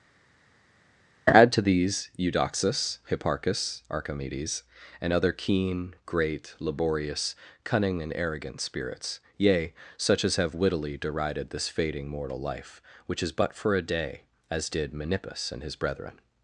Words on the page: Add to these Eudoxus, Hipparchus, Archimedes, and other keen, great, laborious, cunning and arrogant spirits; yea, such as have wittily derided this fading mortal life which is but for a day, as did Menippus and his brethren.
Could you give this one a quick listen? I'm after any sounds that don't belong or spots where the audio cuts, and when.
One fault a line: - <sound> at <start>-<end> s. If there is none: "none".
none